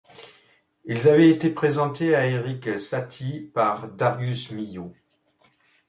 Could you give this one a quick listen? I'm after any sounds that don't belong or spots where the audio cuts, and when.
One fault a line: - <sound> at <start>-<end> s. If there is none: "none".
none